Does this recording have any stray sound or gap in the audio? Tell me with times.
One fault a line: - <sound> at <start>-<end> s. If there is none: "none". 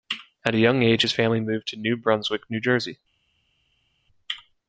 none